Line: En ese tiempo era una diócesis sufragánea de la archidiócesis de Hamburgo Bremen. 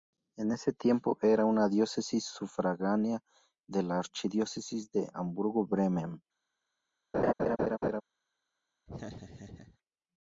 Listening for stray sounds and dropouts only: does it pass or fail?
fail